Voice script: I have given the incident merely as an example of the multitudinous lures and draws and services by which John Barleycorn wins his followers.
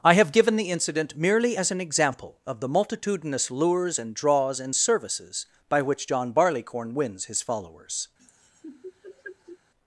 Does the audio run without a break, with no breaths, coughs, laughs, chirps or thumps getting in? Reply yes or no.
no